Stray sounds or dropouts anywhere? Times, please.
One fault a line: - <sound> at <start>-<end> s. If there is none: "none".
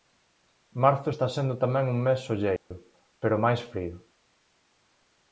- dropout at 2.6-2.7 s